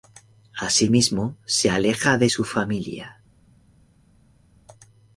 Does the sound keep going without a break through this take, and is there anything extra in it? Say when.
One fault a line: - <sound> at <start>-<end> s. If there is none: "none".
none